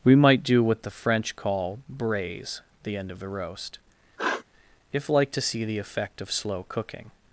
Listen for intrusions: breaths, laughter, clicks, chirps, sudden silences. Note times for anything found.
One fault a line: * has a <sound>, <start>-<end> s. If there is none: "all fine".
* has a sniff, 4.2-4.4 s